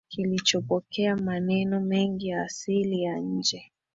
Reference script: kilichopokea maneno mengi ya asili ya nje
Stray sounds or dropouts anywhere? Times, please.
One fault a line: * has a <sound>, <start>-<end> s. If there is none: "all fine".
all fine